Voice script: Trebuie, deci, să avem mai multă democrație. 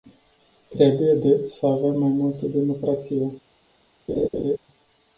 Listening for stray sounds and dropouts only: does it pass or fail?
fail